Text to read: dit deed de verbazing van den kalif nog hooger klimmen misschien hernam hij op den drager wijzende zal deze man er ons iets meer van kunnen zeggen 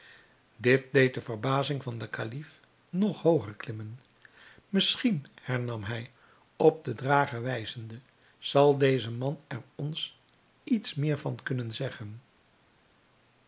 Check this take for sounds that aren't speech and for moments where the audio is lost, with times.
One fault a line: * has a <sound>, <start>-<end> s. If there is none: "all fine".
all fine